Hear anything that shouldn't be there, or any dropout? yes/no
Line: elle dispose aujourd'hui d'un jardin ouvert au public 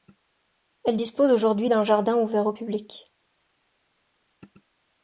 no